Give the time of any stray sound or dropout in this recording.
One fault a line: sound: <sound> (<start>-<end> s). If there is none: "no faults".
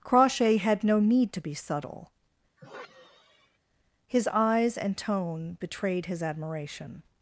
sound: sigh (2.6-3.6 s)